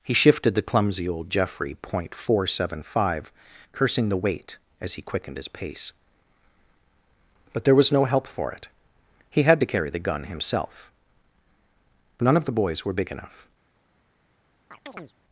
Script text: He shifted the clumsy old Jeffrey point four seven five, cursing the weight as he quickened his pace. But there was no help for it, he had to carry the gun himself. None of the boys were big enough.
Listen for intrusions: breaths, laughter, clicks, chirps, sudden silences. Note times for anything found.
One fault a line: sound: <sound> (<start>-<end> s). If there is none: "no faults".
sound: chirp (14.7-15.1 s)